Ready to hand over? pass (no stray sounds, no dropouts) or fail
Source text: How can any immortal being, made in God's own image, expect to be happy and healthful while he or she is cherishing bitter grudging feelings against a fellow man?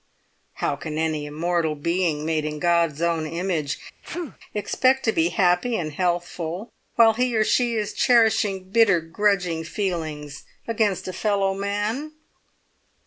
fail